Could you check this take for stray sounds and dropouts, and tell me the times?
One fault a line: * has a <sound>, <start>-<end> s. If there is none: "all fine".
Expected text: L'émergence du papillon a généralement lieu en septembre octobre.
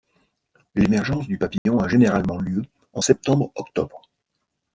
* has a dropout, 1.6-1.7 s